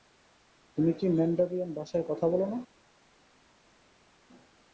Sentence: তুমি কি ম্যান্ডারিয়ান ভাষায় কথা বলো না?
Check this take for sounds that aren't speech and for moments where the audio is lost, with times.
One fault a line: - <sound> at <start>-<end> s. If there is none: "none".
none